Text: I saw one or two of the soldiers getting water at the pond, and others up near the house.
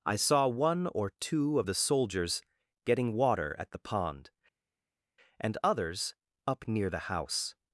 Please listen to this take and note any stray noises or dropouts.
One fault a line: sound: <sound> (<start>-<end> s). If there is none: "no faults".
no faults